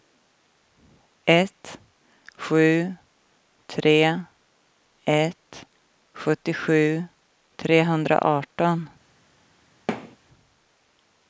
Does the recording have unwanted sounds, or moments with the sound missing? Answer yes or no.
yes